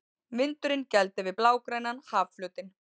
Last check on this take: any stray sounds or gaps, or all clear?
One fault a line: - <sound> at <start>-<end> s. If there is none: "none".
none